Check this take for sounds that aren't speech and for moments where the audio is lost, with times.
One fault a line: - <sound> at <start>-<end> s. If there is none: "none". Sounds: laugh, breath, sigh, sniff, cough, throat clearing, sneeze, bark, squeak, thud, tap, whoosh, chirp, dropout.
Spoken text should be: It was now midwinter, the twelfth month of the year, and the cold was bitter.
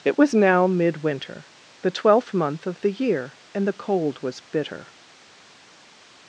none